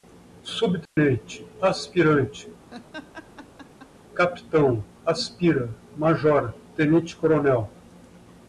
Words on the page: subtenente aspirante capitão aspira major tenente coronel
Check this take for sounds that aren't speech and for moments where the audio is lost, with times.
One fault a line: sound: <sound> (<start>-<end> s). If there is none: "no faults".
sound: dropout (0.9-1.0 s)
sound: laugh (2.7-3.9 s)